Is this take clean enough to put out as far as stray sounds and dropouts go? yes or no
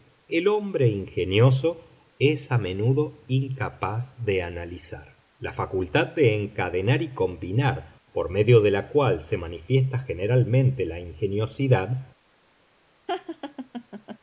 no